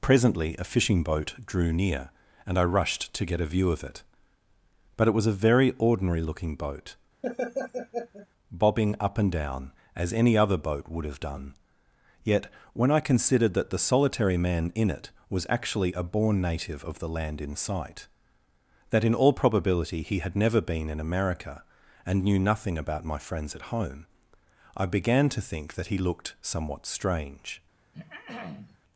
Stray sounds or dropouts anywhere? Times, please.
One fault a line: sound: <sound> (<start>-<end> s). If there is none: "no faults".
sound: laugh (7.2-8.3 s)
sound: throat clearing (27.9-28.8 s)